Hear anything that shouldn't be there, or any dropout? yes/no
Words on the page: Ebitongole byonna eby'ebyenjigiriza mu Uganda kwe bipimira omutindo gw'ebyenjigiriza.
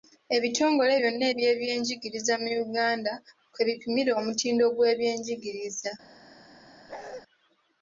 yes